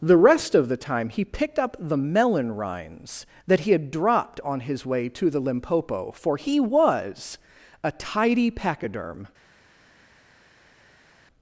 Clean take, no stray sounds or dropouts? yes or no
yes